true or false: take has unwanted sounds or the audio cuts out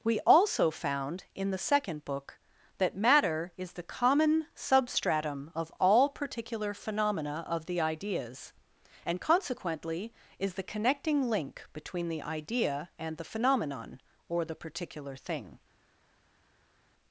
false